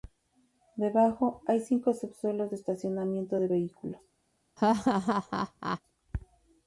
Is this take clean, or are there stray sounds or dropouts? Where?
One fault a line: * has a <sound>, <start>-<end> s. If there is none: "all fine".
* has a laugh, 4.6-5.8 s